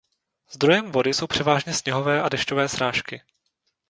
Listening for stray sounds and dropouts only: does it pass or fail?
pass